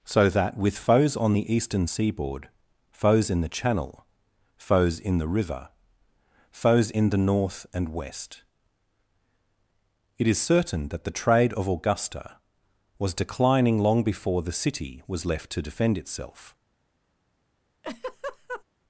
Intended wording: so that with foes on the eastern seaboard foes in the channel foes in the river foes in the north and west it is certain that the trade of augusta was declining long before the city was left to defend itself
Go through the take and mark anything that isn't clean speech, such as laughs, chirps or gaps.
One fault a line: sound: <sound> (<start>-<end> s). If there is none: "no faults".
sound: laugh (17.8-18.6 s)